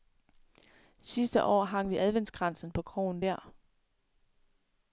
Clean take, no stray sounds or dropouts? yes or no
yes